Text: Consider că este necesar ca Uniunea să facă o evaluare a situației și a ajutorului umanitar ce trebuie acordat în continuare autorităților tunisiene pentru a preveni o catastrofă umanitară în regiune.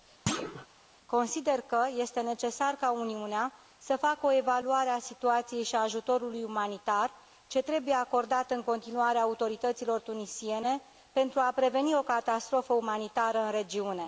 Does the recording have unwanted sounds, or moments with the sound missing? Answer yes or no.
yes